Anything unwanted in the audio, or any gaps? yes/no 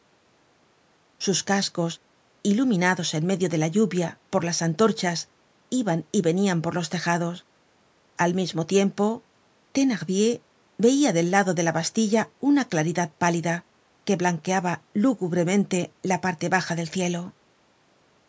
no